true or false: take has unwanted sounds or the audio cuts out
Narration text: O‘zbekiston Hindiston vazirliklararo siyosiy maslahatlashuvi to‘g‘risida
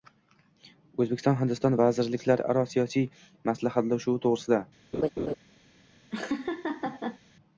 true